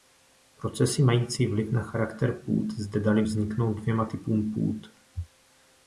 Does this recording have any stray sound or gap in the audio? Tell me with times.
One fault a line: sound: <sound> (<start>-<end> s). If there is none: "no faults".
no faults